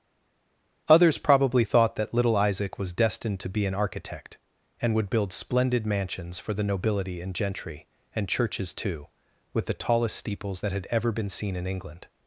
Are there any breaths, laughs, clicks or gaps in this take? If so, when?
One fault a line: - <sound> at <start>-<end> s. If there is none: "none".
none